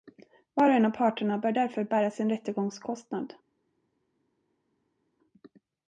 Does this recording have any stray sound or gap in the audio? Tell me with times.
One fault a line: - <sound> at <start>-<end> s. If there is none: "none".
none